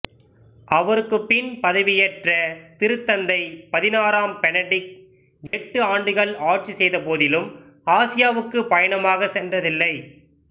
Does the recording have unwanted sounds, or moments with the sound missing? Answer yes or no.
yes